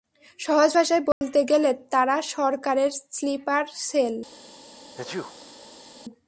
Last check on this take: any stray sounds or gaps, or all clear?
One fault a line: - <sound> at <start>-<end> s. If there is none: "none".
- dropout at 1.1-1.2 s
- sneeze at 5.0-5.9 s